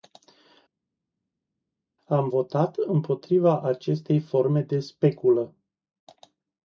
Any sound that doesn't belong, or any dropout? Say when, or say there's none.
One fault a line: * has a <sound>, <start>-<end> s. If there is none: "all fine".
all fine